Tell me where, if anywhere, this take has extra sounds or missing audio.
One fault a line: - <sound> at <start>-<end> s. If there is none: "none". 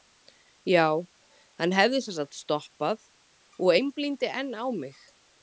none